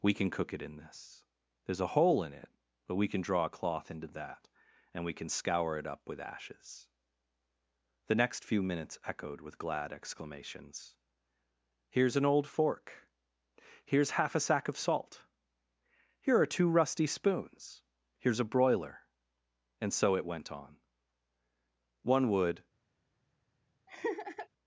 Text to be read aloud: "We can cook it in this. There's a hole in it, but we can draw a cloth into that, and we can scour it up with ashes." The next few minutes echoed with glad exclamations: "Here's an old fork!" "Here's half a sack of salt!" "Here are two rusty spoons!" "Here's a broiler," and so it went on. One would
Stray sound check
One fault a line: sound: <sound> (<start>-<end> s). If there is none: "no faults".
sound: laugh (23.9-24.5 s)